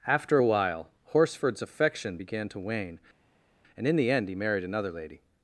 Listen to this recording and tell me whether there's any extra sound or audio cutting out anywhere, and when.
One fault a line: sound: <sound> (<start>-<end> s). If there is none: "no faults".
no faults